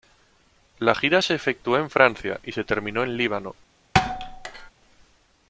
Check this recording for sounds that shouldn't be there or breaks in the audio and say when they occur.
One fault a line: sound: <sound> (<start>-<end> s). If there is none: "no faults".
sound: thud (3.9-4.7 s)